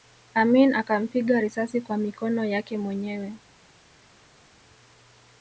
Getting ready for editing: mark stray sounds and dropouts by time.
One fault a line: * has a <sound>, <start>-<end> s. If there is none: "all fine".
all fine